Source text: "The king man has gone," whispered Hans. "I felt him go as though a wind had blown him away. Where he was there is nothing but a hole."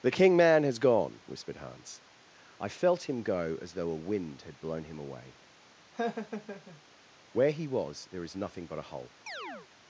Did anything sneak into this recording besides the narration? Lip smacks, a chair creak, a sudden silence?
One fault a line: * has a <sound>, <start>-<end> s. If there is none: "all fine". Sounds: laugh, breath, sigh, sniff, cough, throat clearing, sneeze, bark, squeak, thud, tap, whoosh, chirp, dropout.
* has a laugh, 5.9-6.8 s
* has a chirp, 9.3-9.7 s